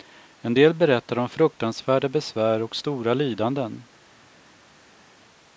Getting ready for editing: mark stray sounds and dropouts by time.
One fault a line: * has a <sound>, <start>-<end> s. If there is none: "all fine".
all fine